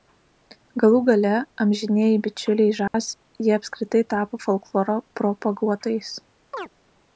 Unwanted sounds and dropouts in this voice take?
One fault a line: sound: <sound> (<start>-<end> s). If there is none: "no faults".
sound: dropout (2.9-2.9 s)
sound: chirp (6.5-6.7 s)